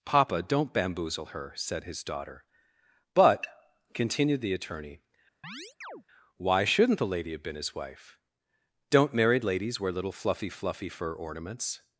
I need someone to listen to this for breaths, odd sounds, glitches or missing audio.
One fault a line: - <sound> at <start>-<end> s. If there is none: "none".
- chirp at 5.4-6.0 s